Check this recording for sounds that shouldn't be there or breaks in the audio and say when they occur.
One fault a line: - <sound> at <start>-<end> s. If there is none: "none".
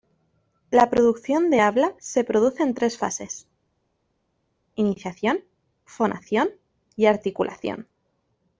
none